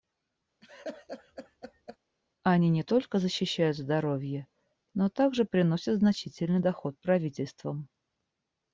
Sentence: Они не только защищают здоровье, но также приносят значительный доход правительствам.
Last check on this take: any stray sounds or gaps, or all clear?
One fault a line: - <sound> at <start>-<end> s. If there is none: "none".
- laugh at 0.6-2.0 s